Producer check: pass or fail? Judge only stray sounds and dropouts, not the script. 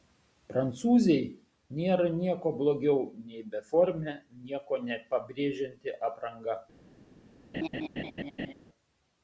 fail